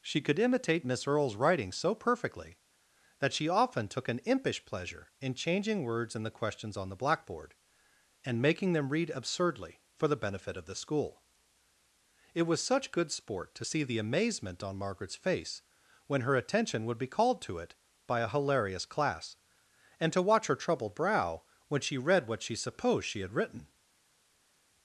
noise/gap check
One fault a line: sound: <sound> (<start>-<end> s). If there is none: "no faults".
no faults